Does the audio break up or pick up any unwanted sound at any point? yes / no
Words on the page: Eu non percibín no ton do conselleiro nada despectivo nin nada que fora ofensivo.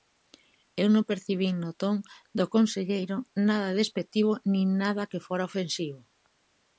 no